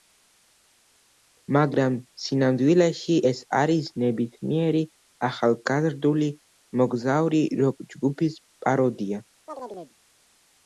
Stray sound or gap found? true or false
true